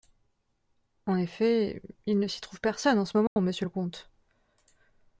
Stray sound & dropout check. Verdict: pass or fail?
fail